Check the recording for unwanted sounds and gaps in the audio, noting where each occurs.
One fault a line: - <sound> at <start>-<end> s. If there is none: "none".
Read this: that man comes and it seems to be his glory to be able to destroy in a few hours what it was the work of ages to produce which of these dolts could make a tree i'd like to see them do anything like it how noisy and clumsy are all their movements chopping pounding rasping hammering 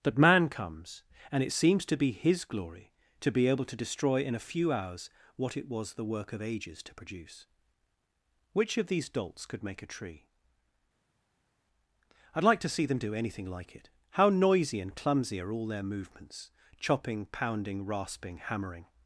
none